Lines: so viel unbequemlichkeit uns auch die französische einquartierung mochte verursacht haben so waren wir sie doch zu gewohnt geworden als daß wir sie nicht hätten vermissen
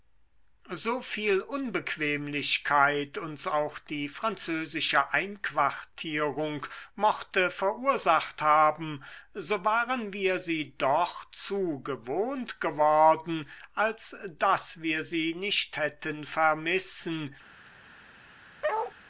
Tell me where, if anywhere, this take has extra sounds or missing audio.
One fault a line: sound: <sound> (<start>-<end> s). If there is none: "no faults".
sound: bark (18.6-18.9 s)